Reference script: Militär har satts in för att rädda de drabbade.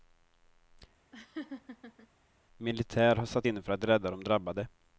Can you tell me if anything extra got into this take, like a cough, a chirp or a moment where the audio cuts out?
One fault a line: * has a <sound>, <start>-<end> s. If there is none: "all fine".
* has a laugh, 1.1-2.1 s